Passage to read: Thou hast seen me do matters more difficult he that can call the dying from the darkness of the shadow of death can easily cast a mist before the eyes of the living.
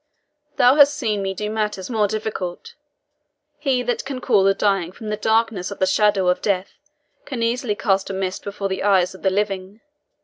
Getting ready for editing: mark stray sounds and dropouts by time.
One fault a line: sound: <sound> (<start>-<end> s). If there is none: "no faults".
no faults